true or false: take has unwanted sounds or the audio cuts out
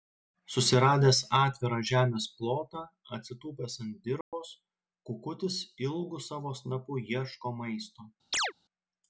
true